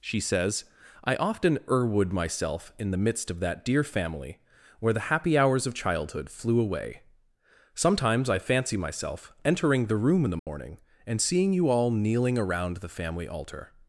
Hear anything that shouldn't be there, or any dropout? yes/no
yes